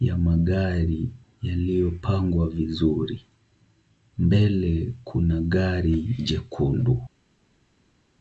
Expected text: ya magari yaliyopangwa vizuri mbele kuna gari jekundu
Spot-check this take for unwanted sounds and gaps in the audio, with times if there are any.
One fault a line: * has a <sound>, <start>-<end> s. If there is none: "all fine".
all fine